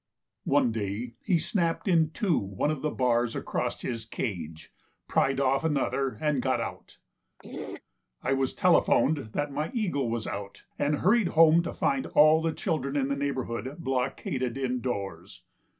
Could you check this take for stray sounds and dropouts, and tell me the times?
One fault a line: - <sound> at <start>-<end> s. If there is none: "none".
- throat clearing at 7.4-7.8 s